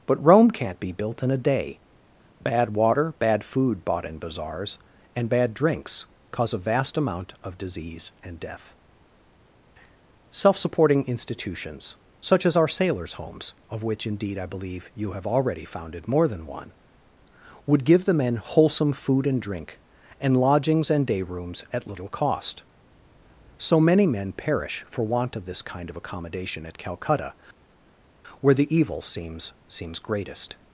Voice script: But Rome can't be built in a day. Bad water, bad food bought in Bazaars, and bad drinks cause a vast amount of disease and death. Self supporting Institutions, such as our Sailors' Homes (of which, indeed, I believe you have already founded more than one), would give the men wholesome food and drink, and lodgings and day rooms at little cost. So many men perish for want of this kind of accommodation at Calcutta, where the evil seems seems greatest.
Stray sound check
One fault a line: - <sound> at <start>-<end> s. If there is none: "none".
none